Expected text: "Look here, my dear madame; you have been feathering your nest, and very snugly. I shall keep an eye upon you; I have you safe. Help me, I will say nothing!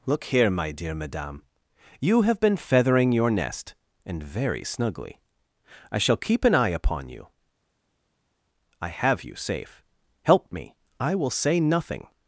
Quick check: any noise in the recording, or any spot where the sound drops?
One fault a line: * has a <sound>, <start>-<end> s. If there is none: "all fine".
all fine